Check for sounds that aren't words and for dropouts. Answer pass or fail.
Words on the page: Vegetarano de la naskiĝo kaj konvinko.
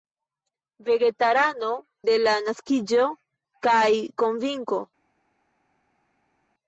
pass